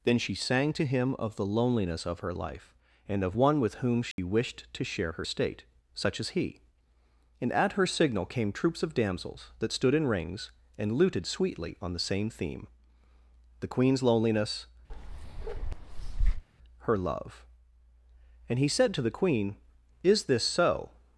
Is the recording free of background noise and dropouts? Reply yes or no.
no